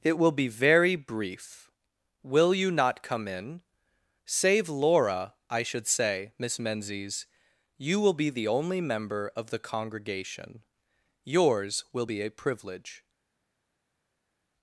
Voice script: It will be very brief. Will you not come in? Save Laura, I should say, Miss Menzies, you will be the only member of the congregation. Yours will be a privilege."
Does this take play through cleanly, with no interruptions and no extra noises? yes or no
yes